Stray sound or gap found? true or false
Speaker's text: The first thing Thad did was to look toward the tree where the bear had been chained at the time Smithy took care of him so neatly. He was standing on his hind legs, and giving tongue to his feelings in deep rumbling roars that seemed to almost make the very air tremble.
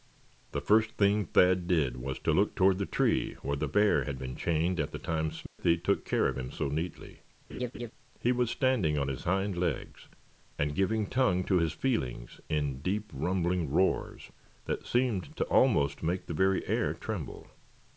true